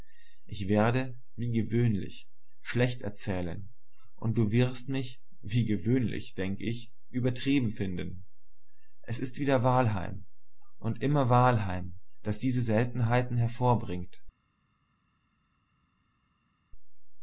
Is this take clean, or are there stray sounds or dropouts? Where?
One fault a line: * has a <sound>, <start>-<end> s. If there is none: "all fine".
all fine